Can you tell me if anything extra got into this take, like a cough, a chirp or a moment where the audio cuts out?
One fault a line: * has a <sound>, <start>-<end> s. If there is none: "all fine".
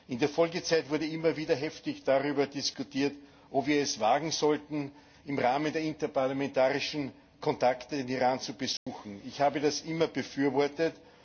* has a dropout, 8.8-8.9 s